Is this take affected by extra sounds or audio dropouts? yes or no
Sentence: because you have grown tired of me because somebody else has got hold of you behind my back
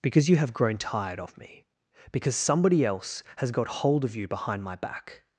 no